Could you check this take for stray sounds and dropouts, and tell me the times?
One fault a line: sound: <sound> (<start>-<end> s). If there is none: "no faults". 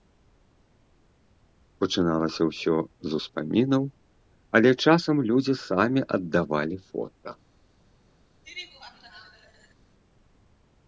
sound: laugh (8.4-9.7 s)